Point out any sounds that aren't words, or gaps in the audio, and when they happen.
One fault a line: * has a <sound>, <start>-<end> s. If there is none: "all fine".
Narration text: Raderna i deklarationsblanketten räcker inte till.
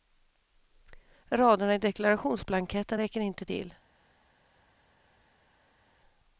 all fine